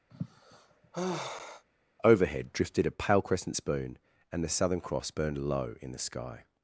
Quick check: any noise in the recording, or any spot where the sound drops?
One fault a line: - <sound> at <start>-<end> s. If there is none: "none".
- sigh at 0.1-1.6 s